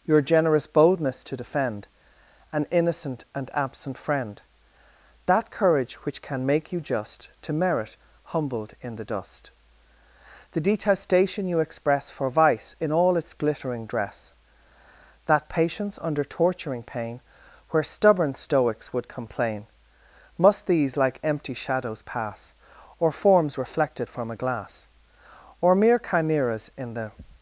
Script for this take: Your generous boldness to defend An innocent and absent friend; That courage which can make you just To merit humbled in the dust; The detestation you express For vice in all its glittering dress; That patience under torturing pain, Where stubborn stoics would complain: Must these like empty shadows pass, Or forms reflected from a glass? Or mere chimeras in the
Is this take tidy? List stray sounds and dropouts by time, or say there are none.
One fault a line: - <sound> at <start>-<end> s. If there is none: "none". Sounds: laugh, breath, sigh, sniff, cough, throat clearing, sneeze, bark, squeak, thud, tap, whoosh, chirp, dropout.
none